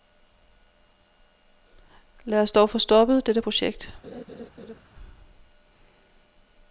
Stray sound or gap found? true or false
true